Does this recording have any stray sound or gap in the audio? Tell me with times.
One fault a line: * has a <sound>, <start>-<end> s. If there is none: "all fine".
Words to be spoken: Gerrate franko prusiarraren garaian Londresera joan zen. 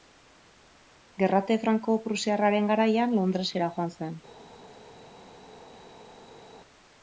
all fine